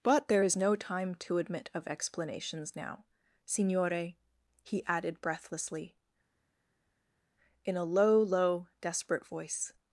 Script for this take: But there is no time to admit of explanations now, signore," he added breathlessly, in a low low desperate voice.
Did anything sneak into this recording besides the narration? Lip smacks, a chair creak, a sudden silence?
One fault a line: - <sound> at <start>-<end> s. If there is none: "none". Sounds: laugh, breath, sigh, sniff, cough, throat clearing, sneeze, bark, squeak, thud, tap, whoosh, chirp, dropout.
none